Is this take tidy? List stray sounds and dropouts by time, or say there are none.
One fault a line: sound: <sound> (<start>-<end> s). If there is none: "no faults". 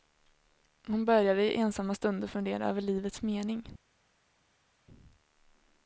no faults